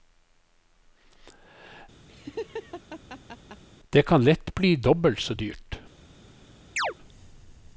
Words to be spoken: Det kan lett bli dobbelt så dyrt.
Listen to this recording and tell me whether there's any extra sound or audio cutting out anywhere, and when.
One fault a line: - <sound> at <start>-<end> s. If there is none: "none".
- laugh at 2.1-3.6 s
- chirp at 6.8-6.9 s